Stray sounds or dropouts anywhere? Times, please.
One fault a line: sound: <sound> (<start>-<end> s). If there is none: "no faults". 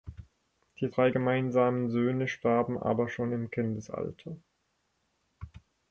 no faults